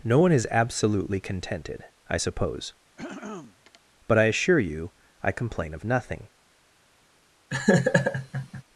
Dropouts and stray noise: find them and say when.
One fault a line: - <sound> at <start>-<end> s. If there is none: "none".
- throat clearing at 3.0-3.8 s
- laugh at 7.5-8.6 s